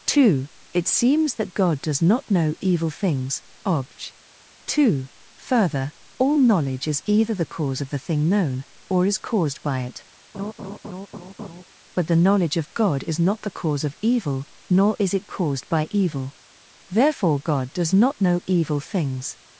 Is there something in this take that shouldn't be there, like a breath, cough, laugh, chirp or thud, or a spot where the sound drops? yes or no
yes